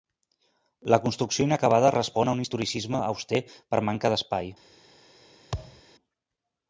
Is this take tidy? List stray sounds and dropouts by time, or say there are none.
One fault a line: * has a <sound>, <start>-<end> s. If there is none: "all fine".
* has a thud, 5.5-5.8 s